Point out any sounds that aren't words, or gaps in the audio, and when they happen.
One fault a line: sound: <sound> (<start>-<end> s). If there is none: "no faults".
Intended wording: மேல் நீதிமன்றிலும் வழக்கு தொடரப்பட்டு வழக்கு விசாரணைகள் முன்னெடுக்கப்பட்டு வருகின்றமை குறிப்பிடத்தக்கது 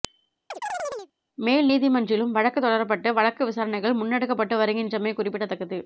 sound: chirp (0.5-1.1 s)